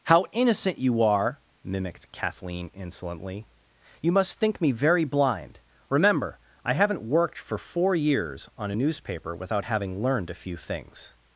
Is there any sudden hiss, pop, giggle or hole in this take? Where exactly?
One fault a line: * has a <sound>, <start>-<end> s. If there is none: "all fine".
all fine